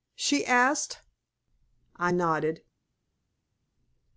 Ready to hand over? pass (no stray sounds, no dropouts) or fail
pass